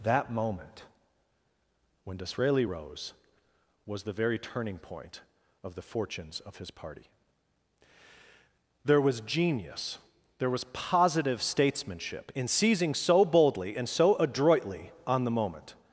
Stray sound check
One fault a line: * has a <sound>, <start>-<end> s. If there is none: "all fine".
all fine